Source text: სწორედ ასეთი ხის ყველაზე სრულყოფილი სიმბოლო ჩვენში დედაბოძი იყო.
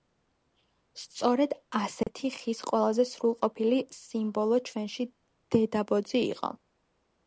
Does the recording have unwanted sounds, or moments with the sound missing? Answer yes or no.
yes